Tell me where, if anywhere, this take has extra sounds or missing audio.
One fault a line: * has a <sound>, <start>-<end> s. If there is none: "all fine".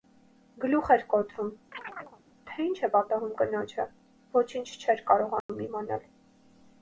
* has a chirp, 1.7-2.2 s
* has a dropout, 5.4-5.5 s